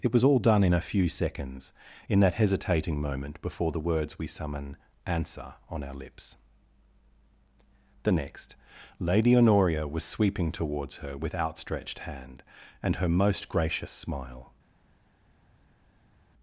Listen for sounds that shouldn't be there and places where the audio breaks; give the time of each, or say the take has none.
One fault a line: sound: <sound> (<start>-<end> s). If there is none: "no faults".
no faults